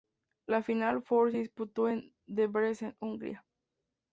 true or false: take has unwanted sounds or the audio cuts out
false